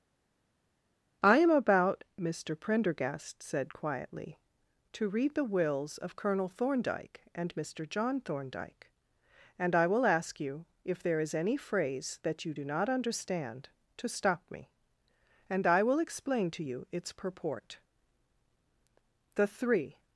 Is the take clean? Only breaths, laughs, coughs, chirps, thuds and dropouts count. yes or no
yes